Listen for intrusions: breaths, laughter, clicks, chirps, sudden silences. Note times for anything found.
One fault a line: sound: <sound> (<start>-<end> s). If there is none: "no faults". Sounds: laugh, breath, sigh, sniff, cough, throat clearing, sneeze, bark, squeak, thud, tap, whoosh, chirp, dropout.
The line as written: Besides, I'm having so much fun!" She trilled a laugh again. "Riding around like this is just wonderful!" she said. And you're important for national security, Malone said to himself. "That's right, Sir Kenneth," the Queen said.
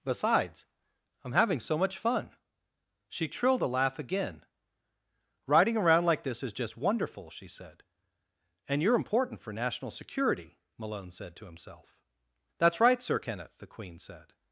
no faults